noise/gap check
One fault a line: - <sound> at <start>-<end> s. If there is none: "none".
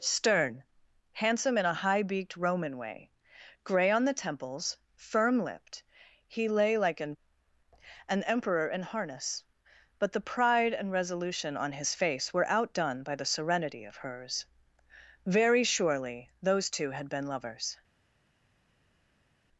none